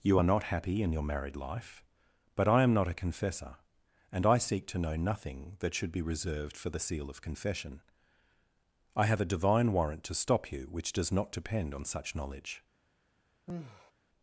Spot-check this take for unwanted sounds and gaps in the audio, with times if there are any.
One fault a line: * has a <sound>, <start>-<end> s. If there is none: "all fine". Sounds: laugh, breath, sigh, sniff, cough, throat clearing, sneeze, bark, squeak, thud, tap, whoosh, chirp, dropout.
* has a sigh, 13.5-13.9 s